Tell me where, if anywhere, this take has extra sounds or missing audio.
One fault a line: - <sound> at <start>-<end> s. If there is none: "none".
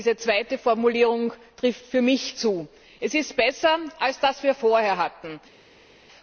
none